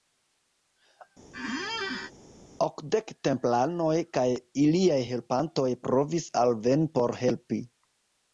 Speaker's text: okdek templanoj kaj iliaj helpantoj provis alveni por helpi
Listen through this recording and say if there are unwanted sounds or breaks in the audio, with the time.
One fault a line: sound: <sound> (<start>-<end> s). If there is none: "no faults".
sound: squeak (1.3-2.1 s)